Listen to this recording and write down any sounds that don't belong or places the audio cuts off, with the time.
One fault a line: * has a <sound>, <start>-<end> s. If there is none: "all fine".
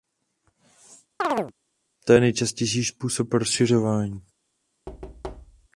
* has a chirp, 1.2-1.5 s
* has a thud, 4.9-5.7 s